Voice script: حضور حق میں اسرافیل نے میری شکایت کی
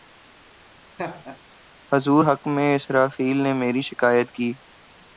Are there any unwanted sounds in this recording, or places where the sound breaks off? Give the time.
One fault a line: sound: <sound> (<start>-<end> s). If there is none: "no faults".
sound: laugh (1.0-1.4 s)